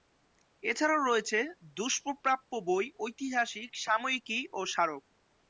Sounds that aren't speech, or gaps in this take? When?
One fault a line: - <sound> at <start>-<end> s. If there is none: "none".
none